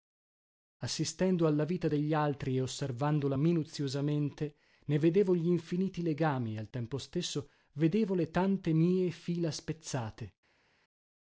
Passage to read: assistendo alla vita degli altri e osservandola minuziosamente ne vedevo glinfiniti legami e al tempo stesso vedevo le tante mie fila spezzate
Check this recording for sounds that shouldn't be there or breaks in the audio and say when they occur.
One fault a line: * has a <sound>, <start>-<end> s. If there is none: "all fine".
all fine